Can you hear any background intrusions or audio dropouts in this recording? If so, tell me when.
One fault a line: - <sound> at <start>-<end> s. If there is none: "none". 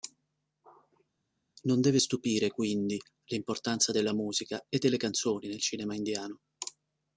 none